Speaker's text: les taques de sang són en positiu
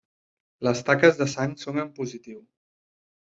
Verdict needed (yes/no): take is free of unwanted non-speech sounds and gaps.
yes